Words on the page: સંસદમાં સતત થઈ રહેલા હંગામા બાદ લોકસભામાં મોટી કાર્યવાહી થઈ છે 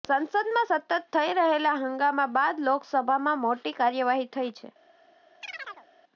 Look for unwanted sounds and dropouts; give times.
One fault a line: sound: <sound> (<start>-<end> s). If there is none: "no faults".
sound: chirp (5.4-5.9 s)